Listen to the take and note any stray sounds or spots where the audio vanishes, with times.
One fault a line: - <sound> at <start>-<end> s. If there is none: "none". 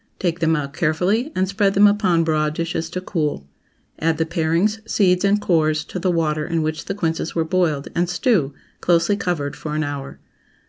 none